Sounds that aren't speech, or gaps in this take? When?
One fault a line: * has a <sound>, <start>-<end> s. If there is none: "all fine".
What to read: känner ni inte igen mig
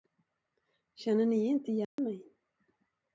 * has a dropout, 1.8-2.0 s